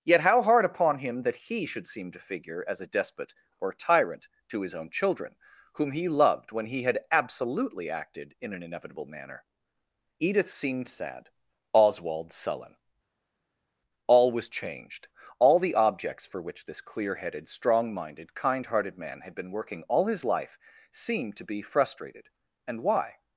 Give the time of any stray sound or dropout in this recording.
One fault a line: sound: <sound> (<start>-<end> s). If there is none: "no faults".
no faults